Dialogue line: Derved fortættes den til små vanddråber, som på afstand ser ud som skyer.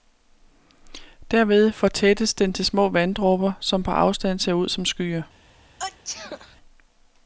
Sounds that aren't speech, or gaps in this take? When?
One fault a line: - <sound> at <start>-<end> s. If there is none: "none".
- sneeze at 5.8-6.6 s